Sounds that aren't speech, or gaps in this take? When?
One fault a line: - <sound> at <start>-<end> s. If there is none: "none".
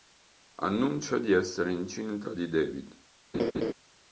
- laugh at 3.3-3.7 s